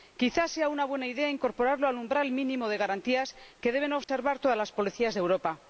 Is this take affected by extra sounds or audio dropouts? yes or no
yes